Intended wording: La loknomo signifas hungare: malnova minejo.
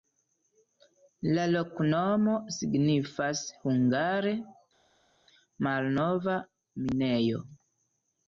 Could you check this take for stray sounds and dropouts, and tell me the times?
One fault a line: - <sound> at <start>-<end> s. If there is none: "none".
none